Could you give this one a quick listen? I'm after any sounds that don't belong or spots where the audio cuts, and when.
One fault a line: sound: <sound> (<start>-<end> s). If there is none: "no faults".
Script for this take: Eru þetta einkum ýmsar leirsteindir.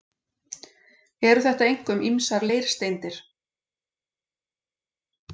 no faults